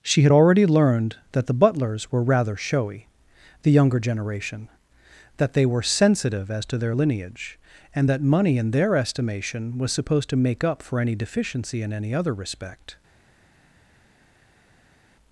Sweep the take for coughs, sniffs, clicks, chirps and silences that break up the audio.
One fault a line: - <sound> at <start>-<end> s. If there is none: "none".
none